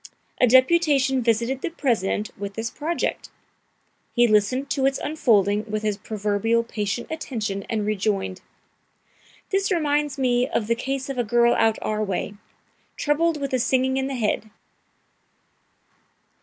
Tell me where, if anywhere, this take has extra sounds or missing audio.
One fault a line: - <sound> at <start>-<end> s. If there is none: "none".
none